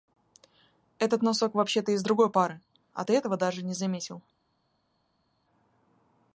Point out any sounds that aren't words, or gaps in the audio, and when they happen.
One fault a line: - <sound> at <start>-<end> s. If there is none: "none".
none